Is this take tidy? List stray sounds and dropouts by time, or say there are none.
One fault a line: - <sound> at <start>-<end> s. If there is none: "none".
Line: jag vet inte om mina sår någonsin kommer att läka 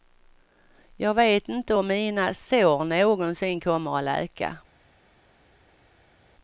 none